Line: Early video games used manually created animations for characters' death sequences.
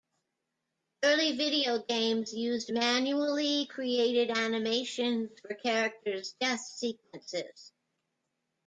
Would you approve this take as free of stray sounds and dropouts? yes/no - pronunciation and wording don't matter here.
yes